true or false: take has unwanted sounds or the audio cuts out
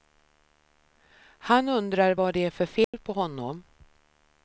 true